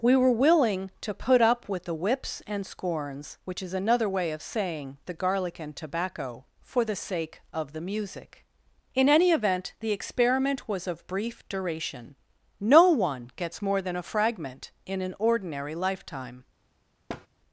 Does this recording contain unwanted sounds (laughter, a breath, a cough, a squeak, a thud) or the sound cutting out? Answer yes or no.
yes